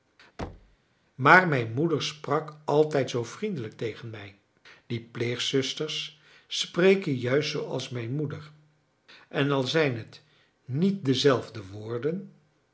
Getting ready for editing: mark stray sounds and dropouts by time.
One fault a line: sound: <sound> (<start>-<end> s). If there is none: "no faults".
sound: thud (0.4-0.8 s)